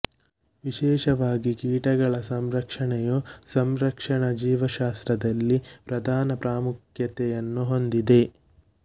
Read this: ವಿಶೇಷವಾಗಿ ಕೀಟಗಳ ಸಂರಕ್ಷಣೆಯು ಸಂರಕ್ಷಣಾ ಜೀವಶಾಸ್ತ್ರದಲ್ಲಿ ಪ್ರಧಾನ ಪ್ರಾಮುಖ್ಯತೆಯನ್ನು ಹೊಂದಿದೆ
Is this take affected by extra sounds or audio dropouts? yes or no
no